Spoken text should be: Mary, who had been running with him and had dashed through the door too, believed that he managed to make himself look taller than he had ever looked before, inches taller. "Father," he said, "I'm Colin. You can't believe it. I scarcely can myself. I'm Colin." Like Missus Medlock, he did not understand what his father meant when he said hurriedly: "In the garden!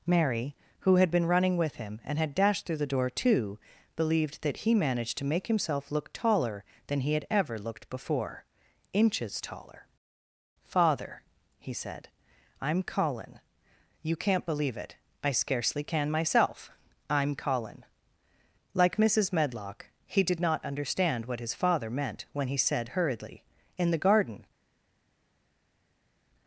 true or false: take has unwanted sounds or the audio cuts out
false